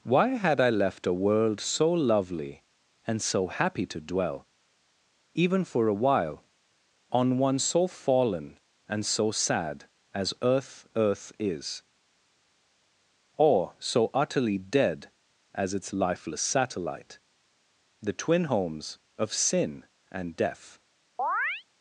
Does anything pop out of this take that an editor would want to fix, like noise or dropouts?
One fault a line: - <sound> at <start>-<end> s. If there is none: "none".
- chirp at 21.2-21.6 s